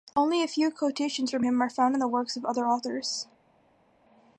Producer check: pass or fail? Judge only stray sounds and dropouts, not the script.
pass